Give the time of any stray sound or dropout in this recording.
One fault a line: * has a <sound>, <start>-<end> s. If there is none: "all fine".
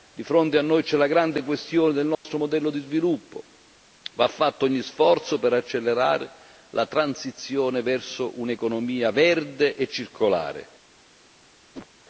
* has a dropout, 2.1-2.2 s
* has a whoosh, 11.7-11.9 s